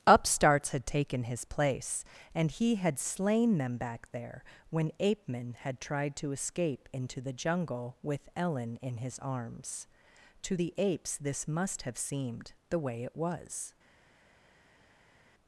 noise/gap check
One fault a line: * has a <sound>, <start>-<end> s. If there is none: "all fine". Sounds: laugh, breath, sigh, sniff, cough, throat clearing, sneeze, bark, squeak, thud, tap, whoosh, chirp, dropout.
all fine